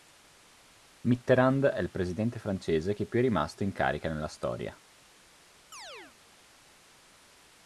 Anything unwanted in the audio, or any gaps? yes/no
yes